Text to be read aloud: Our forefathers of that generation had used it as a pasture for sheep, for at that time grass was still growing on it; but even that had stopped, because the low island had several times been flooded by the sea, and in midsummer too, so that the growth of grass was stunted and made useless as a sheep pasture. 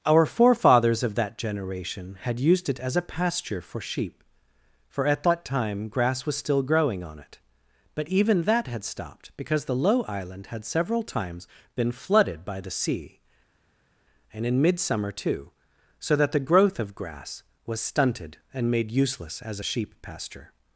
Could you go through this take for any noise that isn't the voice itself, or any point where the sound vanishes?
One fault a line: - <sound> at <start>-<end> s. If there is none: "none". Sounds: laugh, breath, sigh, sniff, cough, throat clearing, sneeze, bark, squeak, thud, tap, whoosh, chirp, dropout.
none